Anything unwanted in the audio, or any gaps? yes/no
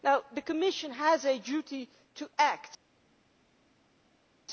no